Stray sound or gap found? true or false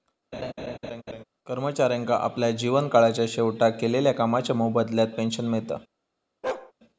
true